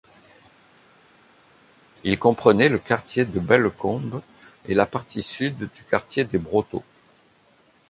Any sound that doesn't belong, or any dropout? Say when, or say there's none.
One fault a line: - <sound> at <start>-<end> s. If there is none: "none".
none